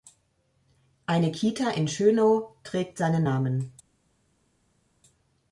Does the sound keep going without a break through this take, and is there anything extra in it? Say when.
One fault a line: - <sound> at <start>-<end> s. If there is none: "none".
none